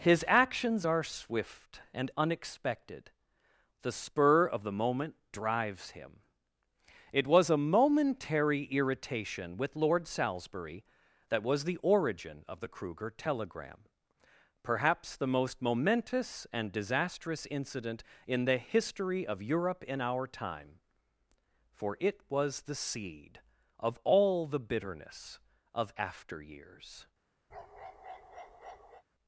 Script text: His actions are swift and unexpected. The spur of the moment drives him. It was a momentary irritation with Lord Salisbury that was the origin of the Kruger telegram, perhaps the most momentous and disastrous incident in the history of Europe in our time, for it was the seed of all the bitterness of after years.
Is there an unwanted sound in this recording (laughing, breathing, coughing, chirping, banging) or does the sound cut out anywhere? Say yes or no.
yes